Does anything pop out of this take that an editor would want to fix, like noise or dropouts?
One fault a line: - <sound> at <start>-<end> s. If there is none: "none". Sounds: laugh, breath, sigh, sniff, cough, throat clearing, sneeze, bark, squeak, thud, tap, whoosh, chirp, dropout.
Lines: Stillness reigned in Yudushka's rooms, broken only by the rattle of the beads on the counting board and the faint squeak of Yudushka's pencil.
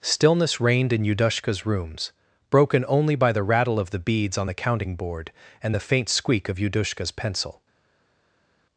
none